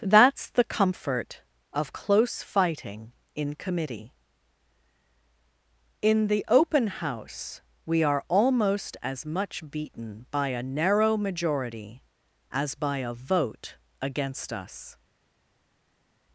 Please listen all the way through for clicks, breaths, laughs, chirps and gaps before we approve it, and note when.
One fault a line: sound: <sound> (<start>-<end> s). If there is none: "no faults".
no faults